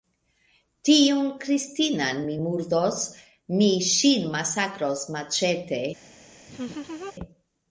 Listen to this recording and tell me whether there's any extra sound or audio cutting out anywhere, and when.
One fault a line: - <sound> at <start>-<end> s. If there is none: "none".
- laugh at 6.5-7.1 s